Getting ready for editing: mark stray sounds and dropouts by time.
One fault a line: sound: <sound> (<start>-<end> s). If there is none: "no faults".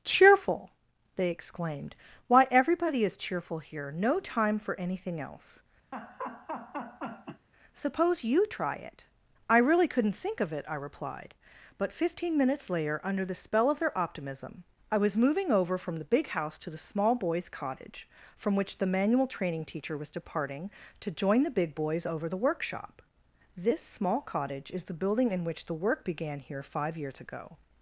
sound: laugh (5.9-7.5 s)